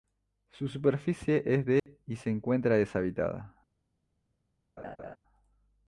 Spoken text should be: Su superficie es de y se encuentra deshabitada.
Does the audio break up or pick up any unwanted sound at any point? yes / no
yes